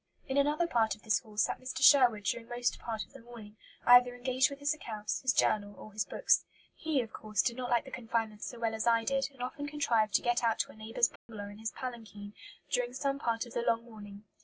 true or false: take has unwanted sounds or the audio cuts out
true